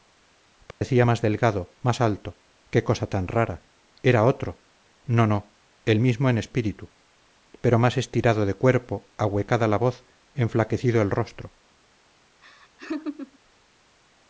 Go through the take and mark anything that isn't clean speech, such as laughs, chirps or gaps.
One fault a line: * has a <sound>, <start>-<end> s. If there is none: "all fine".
* has a dropout, 0.7-0.8 s
* has a laugh, 12.4-13.4 s